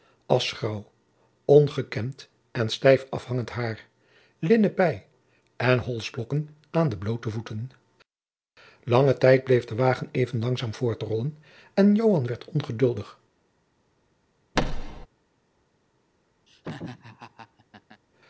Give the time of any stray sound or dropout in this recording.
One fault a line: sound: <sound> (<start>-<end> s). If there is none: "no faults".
sound: thud (14.6-15.1 s)
sound: laugh (16.5-18.0 s)